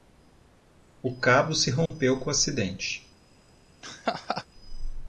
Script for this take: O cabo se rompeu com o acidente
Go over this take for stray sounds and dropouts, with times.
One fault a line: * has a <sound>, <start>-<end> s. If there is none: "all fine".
* has a dropout, 1.9-1.9 s
* has a laugh, 3.8-4.5 s